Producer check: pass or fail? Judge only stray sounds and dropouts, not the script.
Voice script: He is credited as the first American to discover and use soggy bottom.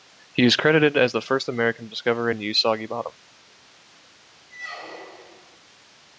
fail